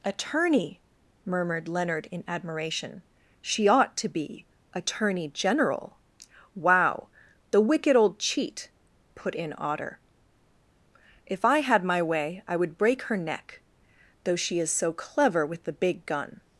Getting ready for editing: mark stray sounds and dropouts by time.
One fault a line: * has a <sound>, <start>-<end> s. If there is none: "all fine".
all fine